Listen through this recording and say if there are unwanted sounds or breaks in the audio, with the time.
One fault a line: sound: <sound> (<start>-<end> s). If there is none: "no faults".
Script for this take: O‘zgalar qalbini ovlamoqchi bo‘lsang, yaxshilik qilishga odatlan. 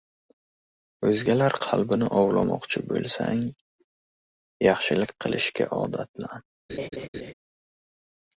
sound: laugh (6.7-7.3 s)